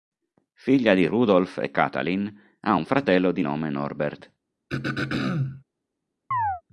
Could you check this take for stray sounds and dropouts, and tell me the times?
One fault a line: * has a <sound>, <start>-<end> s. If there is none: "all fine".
* has a throat clearing, 4.7-5.6 s
* has a chirp, 6.3-6.6 s